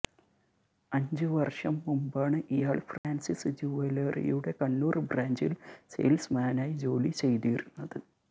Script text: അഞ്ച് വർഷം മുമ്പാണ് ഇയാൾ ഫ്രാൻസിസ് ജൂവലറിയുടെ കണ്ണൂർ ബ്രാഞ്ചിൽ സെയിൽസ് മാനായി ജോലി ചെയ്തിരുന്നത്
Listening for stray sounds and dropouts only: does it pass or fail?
fail